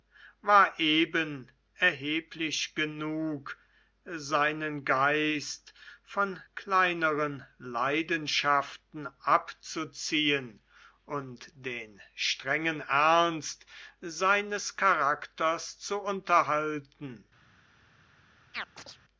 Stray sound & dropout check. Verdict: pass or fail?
fail